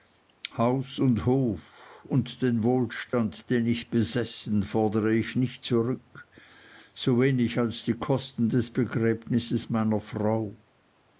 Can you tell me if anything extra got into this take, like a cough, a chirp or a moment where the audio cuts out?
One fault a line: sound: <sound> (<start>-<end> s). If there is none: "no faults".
sound: dropout (3.1-3.1 s)